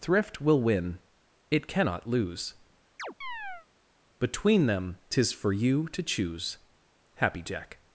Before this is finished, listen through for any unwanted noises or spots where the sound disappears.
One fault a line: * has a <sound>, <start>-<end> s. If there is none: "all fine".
* has a chirp, 3.0-3.7 s